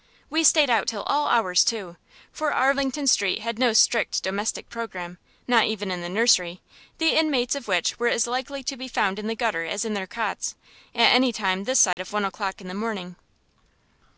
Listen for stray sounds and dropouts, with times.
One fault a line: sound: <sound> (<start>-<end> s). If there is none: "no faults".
sound: dropout (11.9-12.0 s)